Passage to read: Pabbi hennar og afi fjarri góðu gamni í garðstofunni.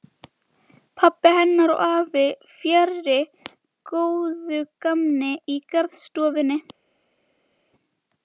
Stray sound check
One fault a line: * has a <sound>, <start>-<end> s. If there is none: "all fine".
all fine